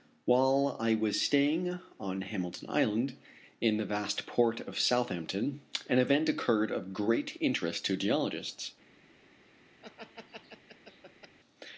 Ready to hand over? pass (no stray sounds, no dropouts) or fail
fail